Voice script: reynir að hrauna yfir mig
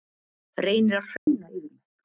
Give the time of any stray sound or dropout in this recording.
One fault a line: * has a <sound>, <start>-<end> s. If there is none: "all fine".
* has a dropout, 1.2-1.3 s